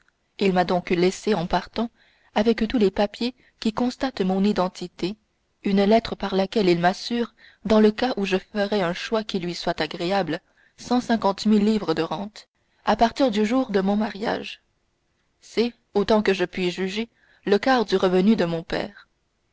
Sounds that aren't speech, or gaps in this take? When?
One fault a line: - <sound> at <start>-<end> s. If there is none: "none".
none